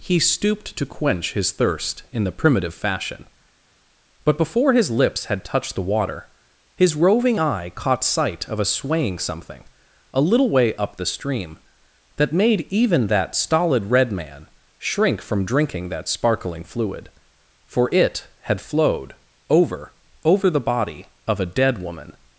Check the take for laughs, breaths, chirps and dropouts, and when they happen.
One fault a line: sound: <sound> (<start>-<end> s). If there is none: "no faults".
no faults